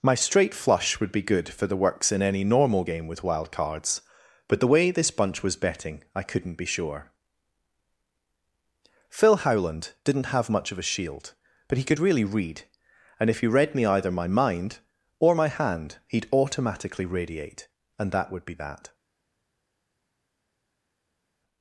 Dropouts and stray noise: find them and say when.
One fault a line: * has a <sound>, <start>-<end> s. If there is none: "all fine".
all fine